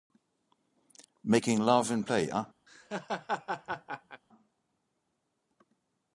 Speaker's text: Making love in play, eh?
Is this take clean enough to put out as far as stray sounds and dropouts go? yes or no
no